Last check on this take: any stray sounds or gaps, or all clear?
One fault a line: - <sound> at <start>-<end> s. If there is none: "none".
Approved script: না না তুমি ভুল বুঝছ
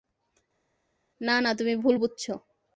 none